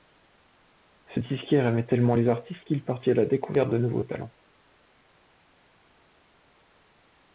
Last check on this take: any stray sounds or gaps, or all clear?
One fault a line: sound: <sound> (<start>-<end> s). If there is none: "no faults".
no faults